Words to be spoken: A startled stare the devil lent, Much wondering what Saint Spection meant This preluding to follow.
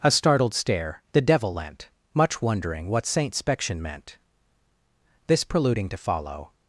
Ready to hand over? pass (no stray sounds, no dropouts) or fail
pass